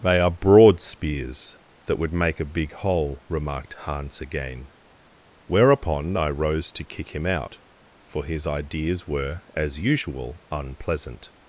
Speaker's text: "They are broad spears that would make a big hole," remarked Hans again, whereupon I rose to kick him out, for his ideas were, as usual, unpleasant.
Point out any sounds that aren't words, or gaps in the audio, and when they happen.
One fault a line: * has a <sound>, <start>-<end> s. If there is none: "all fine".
all fine